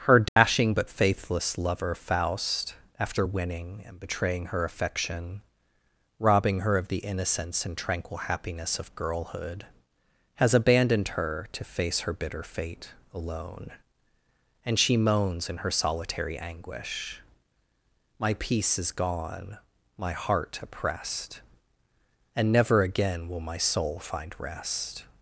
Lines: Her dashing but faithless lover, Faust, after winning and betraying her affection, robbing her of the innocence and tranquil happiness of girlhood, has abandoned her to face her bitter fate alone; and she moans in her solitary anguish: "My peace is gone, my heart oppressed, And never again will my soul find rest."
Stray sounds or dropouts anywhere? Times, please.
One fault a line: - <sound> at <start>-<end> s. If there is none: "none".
- dropout at 0.3-0.4 s